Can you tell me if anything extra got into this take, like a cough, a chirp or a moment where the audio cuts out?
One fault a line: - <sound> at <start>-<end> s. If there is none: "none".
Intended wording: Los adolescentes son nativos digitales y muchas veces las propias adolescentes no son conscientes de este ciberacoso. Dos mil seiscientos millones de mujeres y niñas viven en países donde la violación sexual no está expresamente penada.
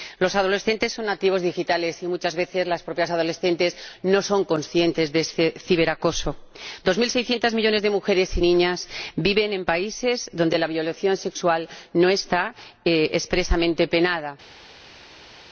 none